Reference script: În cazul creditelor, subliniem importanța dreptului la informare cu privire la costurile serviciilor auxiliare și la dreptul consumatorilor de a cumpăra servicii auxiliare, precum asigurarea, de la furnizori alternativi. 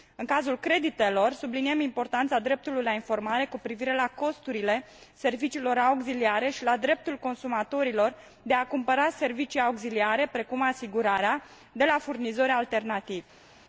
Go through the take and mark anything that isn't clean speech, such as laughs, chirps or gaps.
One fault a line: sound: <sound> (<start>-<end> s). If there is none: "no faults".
no faults